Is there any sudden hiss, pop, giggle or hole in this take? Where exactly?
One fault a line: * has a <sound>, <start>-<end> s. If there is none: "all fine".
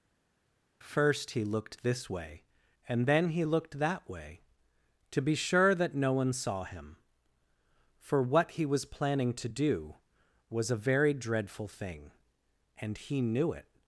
all fine